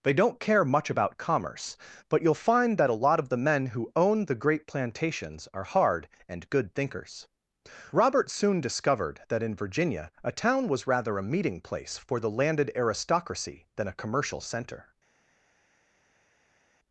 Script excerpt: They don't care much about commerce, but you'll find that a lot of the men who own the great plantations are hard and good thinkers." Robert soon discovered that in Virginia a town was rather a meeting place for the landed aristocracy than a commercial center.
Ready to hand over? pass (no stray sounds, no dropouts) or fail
pass